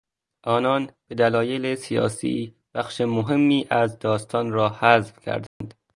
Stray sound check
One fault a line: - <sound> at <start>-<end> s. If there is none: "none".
- dropout at 5.5-5.6 s